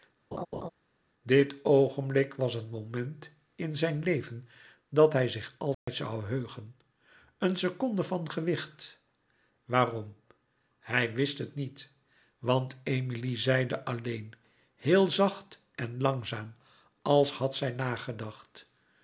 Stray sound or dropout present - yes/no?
yes